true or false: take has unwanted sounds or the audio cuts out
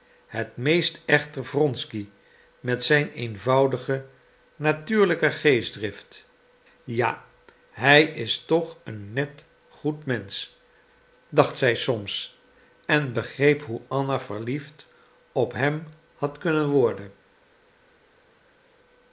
false